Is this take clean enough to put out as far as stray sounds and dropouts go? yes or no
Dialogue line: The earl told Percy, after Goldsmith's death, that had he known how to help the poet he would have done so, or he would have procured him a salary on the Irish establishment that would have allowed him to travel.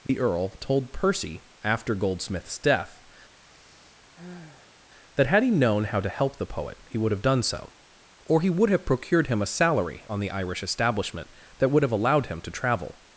no